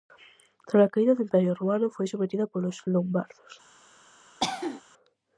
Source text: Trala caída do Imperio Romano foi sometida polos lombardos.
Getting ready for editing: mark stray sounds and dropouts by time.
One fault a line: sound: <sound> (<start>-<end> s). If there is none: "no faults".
sound: cough (4.4-4.8 s)